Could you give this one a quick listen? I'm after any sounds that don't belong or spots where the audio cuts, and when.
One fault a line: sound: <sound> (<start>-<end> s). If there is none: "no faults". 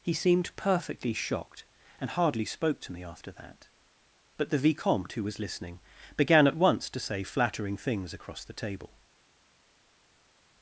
no faults